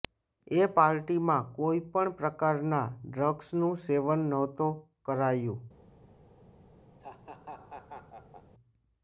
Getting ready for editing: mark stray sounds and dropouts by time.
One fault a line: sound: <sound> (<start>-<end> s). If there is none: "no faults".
sound: laugh (7.0-8.5 s)